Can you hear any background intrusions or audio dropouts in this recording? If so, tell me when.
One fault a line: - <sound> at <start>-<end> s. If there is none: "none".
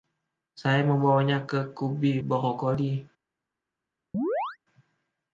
- chirp at 4.1-4.6 s